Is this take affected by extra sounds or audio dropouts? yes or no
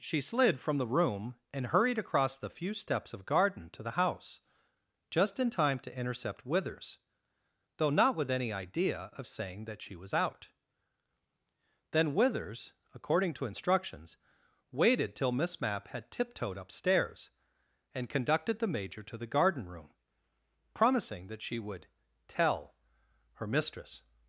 no